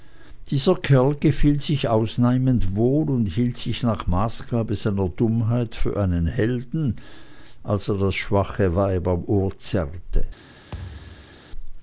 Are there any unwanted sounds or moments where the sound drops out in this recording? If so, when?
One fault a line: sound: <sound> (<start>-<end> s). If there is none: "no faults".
sound: thud (10.7-11.5 s)